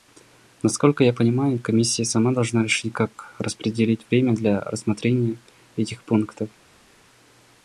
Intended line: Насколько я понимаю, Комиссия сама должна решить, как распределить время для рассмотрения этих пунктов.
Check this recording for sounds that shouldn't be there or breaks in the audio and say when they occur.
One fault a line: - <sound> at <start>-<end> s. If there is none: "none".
none